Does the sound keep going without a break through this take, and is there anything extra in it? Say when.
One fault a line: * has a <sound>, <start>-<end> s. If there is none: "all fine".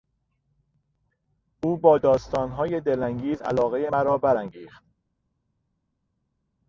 all fine